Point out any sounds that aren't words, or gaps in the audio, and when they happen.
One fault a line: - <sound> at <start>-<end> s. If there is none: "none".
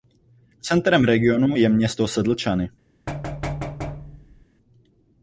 - thud at 3.1-4.5 s